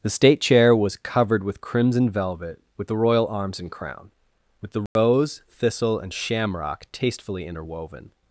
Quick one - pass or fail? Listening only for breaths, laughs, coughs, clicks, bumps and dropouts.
fail